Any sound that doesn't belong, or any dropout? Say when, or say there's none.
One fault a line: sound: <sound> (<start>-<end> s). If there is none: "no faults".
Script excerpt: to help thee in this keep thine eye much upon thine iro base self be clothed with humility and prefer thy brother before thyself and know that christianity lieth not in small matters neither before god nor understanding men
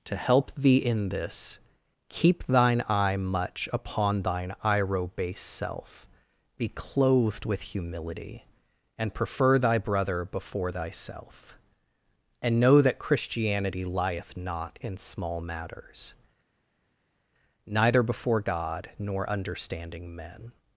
no faults